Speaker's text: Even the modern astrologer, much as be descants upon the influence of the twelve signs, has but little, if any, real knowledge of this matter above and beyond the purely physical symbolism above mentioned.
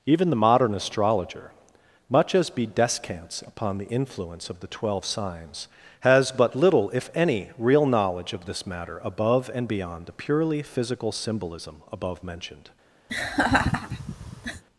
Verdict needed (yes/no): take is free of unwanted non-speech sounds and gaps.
no